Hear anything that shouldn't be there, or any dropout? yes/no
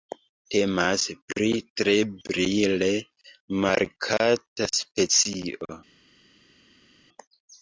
no